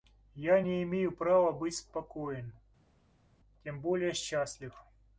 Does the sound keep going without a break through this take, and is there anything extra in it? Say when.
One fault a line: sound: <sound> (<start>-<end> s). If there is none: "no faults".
no faults